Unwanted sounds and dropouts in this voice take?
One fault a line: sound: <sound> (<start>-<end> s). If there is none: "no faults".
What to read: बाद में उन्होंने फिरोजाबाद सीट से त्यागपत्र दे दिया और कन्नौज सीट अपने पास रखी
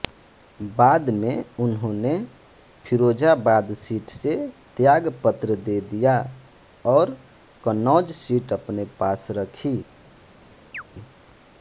sound: chirp (10.7-10.8 s)